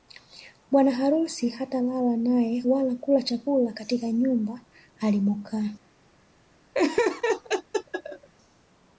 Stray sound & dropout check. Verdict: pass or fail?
fail